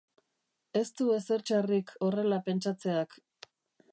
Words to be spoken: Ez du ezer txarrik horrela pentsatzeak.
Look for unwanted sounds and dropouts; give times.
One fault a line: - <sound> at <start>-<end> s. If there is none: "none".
none